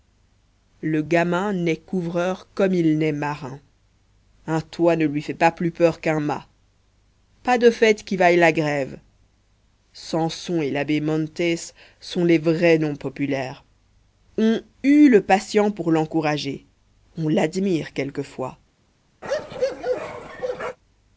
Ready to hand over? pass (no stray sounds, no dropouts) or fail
fail